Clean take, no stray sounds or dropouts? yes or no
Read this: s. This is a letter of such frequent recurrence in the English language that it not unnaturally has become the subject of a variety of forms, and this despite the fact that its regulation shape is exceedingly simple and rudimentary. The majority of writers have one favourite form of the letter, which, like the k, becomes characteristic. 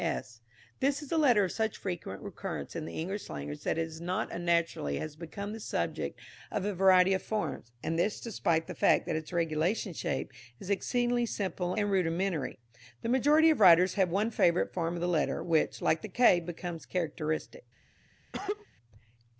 no